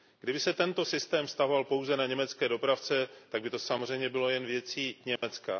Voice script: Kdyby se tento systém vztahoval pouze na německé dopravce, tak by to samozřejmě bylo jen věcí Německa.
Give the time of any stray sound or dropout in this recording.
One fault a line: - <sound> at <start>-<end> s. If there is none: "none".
- dropout at 5.2-5.2 s